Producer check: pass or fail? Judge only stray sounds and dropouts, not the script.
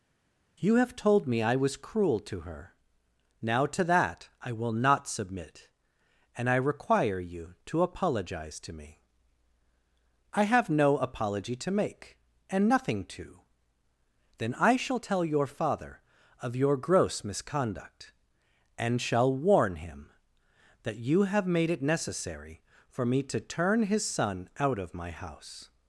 pass